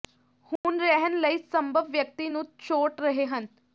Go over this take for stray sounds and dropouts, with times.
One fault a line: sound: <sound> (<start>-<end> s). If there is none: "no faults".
sound: dropout (0.6-0.6 s)